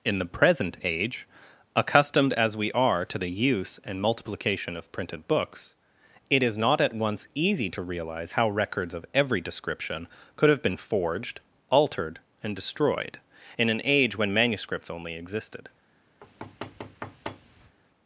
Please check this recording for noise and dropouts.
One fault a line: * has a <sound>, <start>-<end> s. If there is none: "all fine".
* has a thud, 16.2-17.8 s